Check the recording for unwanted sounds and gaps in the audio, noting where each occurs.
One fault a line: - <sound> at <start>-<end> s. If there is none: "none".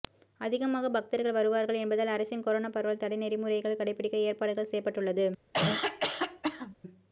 - cough at 5.5-6.8 s